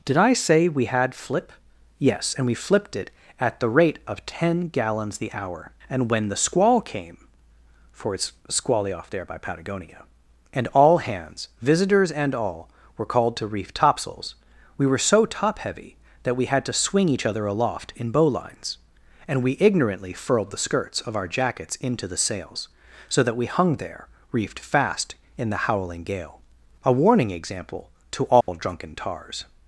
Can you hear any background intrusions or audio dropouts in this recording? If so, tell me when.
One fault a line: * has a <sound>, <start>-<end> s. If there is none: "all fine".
* has a dropout, 28.4-28.5 s